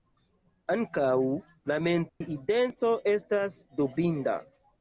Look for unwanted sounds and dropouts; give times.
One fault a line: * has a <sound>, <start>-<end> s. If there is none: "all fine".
* has a dropout, 2.1-2.2 s